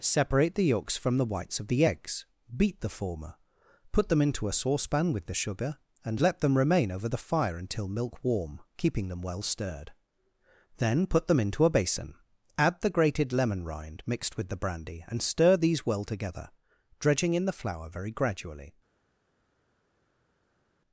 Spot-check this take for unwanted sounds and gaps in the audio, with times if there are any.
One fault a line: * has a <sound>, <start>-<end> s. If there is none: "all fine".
all fine